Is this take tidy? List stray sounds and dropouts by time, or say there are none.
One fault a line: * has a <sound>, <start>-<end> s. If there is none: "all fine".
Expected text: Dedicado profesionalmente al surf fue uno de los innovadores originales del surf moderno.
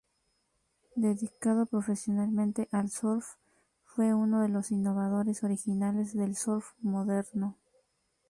all fine